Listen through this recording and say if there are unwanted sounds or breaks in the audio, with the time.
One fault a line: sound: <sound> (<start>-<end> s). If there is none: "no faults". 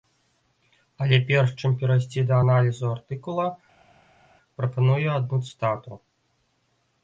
no faults